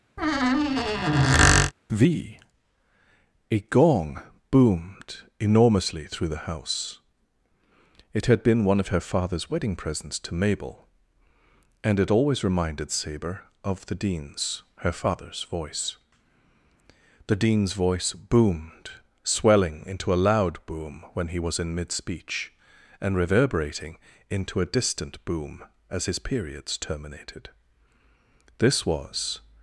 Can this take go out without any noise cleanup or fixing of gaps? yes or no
no